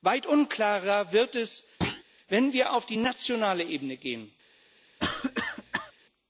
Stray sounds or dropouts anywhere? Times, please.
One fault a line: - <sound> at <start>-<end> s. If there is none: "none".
- thud at 1.8-2.0 s
- cough at 5.0-5.9 s